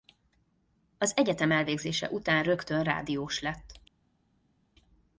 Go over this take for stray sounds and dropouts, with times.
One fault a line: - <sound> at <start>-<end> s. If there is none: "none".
none